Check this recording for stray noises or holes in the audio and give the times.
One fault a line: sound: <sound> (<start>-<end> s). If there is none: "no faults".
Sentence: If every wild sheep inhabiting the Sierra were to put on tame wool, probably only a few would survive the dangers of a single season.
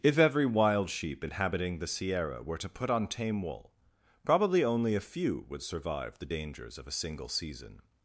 no faults